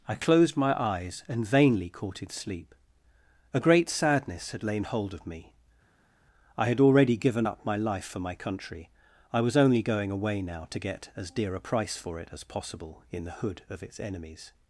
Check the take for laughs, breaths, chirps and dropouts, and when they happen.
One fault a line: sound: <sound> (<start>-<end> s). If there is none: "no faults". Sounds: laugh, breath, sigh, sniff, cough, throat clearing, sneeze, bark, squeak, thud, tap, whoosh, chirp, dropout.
no faults